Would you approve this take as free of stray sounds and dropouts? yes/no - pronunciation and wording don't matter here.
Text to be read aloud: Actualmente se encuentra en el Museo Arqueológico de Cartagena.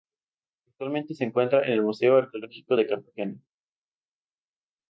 yes